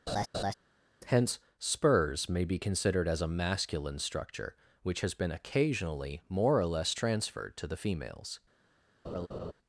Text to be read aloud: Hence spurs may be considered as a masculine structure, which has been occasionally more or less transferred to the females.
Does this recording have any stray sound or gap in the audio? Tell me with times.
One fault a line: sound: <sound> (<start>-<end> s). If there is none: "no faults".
sound: laugh (0.1-0.5 s)
sound: laugh (9.0-9.5 s)